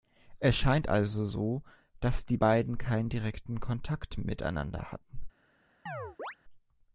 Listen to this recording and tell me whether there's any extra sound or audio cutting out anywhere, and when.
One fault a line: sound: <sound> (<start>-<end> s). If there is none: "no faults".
sound: chirp (5.9-6.4 s)